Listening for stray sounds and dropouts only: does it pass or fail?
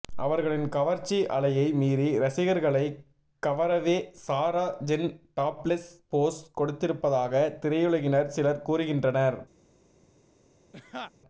fail